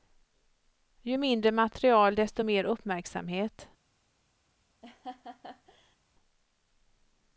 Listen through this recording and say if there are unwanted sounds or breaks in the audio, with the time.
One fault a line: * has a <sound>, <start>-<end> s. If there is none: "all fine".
* has a laugh, 4.8-6.0 s